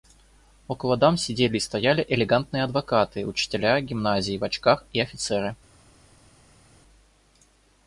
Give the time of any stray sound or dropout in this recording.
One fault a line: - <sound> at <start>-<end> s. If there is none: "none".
none